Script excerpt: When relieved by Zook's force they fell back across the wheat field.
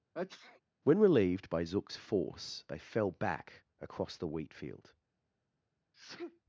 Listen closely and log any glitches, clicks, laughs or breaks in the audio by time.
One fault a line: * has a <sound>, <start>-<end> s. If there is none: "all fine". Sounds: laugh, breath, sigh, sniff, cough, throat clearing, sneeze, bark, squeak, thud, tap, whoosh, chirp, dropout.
* has a sneeze, 0.1-0.6 s
* has a sneeze, 5.9-6.4 s